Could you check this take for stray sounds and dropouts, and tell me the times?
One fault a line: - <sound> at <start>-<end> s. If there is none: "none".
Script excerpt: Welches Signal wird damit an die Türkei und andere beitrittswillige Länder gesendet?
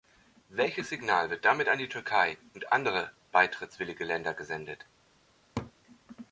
- laugh at 5.6-5.7 s